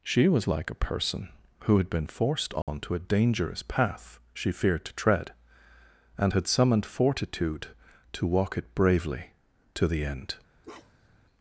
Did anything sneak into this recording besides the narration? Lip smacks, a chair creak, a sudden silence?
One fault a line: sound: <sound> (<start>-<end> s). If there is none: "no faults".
sound: dropout (2.6-2.7 s)
sound: bark (10.6-11.2 s)